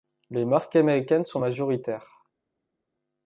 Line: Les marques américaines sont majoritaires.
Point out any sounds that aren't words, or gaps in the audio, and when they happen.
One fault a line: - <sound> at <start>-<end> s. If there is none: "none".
none